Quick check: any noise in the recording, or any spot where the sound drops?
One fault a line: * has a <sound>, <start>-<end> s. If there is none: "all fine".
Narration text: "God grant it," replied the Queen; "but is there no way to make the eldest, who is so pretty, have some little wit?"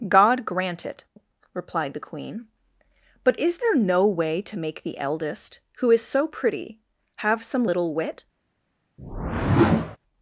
* has a whoosh, 9.0-10.0 s